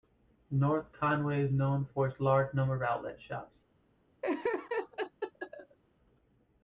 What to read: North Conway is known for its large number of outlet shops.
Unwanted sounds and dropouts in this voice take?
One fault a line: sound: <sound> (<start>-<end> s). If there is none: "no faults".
sound: laugh (4.2-5.8 s)